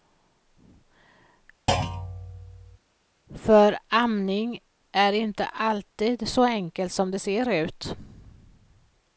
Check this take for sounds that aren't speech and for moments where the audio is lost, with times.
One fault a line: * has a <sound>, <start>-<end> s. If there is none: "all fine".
* has a thud, 1.7-2.8 s